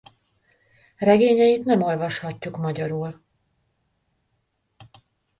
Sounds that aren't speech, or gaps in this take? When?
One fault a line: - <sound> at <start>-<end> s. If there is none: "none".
none